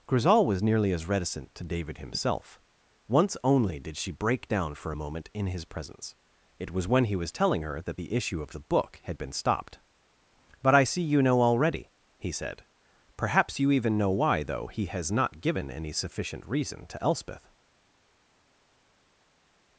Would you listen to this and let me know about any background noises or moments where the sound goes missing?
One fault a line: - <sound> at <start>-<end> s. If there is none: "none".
none